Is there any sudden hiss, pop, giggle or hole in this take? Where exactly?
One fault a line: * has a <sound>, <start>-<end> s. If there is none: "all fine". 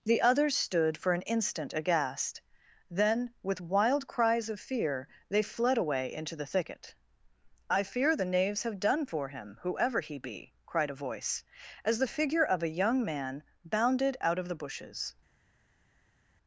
all fine